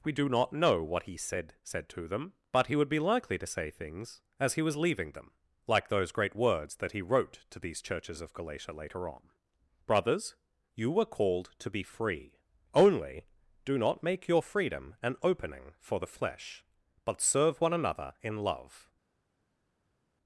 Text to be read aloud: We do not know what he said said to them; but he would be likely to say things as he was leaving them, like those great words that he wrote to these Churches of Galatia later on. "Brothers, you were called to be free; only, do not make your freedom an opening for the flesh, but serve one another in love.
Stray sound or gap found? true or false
false